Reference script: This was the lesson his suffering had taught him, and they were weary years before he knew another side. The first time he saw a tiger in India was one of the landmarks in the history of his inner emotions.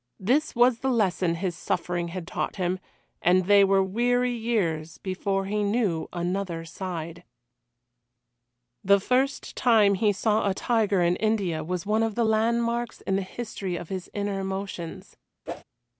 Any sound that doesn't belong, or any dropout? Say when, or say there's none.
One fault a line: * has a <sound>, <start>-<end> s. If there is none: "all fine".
* has a whoosh, 15.5-15.6 s